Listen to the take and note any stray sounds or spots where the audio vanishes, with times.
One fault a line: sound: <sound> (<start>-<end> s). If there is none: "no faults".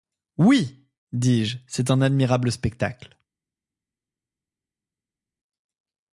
no faults